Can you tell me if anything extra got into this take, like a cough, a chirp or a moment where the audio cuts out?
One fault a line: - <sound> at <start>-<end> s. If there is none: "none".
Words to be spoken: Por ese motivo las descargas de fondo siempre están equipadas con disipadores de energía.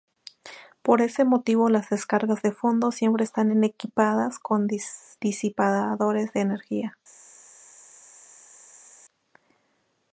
none